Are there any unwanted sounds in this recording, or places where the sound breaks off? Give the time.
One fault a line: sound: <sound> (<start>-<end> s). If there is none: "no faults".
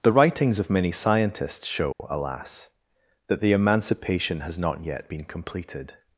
sound: dropout (1.9-2.0 s)